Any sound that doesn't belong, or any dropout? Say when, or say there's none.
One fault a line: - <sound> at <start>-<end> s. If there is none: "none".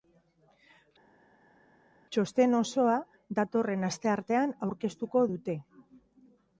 none